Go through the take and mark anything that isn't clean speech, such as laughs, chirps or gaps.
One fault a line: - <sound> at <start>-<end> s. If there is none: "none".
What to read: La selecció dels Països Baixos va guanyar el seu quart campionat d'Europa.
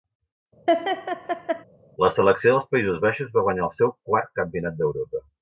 - laugh at 0.7-1.6 s